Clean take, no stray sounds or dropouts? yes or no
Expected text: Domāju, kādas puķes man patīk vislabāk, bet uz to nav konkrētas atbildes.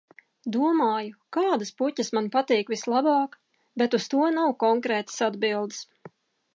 yes